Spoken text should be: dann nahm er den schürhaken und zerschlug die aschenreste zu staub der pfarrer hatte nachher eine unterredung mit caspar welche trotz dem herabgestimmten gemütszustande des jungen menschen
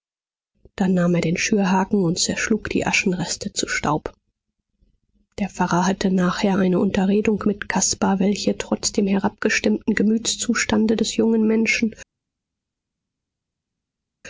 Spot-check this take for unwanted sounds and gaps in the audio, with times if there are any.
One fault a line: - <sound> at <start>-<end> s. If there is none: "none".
none